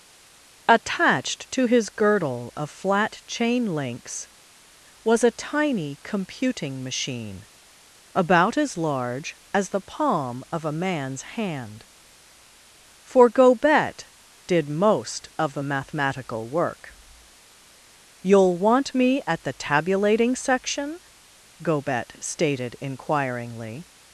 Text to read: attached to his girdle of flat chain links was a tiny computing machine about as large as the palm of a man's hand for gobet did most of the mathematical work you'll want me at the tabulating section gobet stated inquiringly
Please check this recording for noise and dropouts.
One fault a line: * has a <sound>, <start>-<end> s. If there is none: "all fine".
all fine